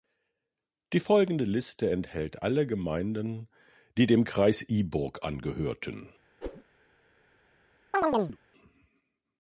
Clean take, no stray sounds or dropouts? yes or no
no